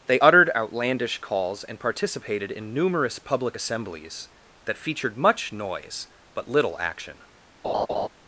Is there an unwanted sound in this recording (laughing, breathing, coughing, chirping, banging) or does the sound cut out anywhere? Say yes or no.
yes